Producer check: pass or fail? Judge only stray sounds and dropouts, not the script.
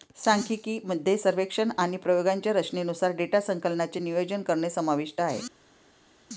pass